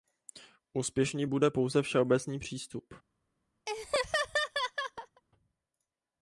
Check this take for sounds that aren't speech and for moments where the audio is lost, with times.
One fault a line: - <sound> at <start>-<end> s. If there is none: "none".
- laugh at 3.7-5.2 s